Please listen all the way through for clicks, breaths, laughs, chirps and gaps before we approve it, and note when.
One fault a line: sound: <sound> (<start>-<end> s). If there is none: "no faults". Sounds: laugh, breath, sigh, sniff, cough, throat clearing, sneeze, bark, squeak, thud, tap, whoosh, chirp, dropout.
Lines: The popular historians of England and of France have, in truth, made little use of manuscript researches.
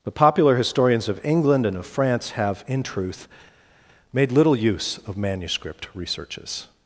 no faults